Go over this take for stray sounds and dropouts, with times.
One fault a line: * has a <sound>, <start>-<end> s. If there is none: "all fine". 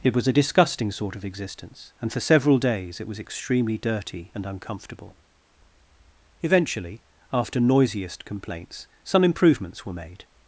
all fine